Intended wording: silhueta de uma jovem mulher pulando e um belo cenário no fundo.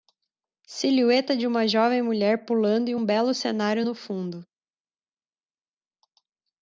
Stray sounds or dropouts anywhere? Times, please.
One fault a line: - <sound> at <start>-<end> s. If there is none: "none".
none